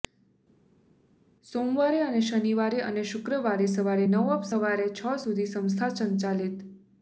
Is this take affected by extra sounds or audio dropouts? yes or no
no